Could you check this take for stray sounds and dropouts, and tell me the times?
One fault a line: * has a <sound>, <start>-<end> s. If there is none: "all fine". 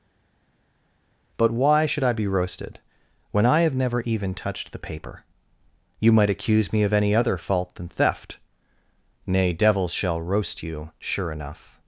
all fine